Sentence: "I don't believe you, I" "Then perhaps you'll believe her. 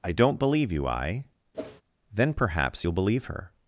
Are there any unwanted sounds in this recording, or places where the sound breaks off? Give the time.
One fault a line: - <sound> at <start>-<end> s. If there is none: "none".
- whoosh at 1.5-1.8 s